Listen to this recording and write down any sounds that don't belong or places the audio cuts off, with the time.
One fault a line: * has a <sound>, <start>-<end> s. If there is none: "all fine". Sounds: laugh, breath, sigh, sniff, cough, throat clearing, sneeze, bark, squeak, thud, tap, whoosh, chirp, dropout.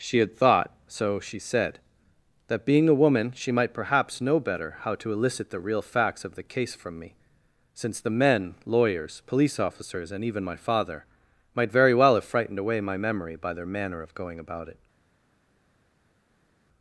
all fine